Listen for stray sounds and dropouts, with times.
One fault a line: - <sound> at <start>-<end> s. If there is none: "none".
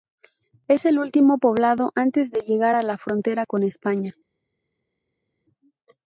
none